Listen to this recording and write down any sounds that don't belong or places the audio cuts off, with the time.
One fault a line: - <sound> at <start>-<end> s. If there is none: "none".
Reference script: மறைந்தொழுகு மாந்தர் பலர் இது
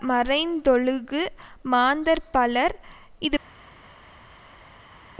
none